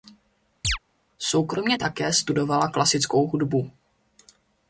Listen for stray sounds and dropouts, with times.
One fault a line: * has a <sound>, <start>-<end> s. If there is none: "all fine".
* has a chirp, 0.6-0.8 s